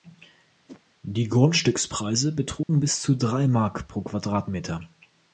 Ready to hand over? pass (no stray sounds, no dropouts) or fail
fail